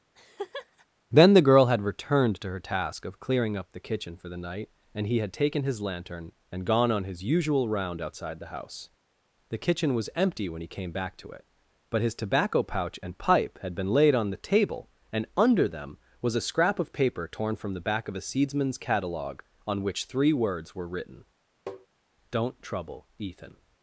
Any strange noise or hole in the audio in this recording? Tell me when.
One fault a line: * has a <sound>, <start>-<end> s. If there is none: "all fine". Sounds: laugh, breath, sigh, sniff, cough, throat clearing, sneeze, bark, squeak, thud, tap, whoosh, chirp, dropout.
* has a laugh, 0.1-0.9 s
* has a tap, 21.7-21.9 s